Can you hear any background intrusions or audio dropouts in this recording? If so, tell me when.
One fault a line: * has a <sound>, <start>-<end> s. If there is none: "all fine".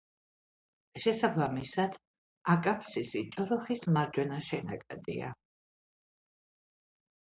all fine